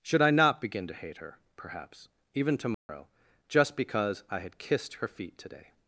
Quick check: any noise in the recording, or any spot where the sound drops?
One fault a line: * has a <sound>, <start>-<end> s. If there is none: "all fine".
* has a dropout, 2.7-2.9 s